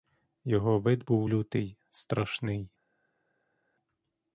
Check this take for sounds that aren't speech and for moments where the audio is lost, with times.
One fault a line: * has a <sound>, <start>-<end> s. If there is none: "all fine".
all fine